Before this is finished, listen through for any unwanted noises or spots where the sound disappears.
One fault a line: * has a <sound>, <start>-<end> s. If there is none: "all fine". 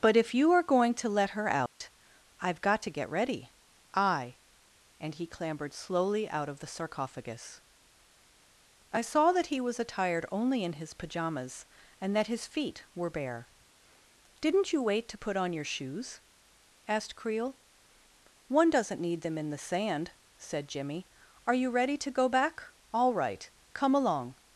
* has a dropout, 1.7-1.8 s